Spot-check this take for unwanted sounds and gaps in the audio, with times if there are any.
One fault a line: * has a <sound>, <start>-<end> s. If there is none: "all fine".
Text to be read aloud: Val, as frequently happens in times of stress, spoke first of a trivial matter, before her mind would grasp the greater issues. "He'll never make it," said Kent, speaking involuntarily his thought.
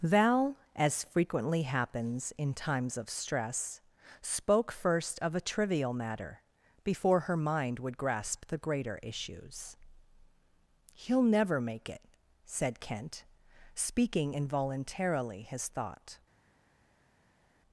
all fine